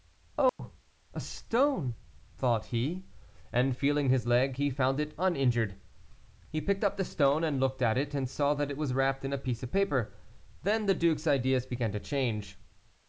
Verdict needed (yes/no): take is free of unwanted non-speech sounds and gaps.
no